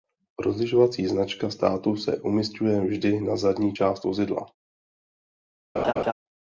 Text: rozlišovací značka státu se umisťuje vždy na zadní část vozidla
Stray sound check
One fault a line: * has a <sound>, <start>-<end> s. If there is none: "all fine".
* has a laugh, 5.8-6.1 s